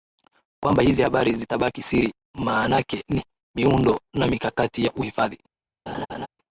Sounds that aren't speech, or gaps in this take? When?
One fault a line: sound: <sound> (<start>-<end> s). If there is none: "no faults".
sound: laugh (5.9-6.3 s)